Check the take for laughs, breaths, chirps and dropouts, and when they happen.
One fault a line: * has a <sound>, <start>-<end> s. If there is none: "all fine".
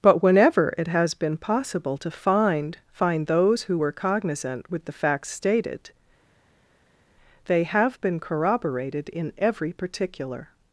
all fine